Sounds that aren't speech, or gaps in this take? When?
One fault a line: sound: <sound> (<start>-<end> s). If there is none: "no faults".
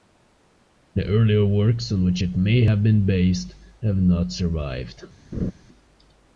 sound: laugh (5.3-5.5 s)